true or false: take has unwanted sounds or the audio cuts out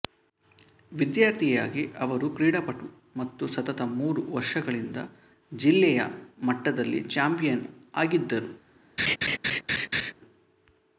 true